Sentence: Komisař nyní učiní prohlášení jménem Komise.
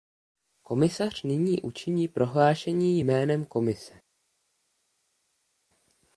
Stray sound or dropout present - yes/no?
no